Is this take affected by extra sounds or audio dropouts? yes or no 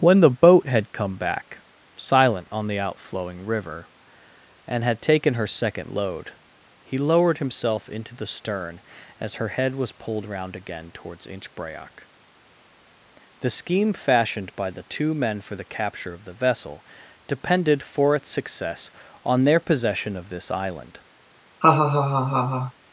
yes